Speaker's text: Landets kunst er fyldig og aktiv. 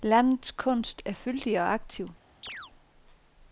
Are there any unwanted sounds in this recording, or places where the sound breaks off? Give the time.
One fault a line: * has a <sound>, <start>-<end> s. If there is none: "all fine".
* has a chirp, 2.4-2.7 s